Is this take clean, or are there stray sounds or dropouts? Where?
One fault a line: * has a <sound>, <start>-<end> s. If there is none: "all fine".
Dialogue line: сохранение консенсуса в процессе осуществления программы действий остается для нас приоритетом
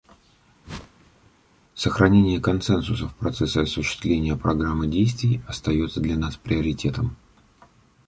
* has a whoosh, 0.6-1.3 s